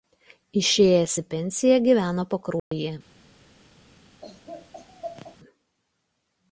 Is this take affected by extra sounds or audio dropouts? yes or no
yes